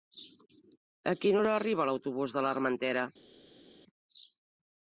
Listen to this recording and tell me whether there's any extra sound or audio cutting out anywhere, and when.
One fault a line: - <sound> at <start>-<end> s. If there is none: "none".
none